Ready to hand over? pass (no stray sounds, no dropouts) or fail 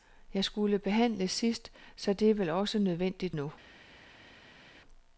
pass